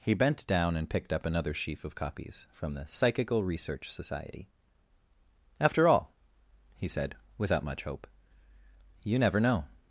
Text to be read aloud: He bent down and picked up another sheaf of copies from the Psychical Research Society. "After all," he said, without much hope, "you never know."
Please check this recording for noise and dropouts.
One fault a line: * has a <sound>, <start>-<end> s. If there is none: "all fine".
all fine